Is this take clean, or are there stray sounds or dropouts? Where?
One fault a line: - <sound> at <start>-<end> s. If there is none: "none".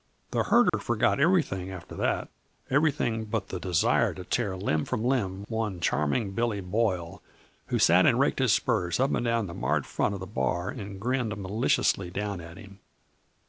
- dropout at 0.7-0.7 s